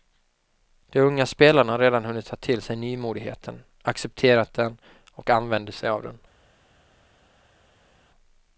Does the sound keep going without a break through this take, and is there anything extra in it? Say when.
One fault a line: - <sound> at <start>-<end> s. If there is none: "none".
none